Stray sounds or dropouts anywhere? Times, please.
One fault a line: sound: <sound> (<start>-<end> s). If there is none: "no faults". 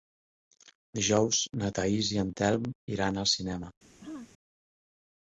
sound: throat clearing (4.0-4.3 s)